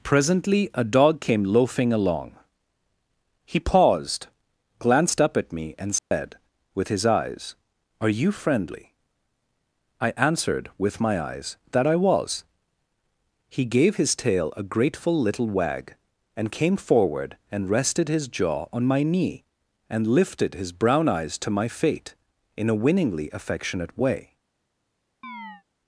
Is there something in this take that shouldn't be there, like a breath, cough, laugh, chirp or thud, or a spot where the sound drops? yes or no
yes